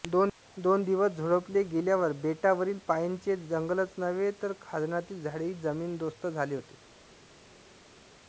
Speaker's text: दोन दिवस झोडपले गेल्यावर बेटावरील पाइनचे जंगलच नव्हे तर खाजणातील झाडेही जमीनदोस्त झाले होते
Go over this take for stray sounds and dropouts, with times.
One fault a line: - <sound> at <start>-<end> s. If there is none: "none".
none